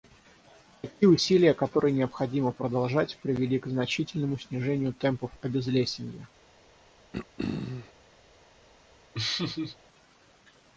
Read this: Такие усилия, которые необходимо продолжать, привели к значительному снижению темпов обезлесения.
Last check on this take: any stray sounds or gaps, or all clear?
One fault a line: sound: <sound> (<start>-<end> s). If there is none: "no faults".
sound: throat clearing (7.1-7.9 s)
sound: laugh (9.1-9.8 s)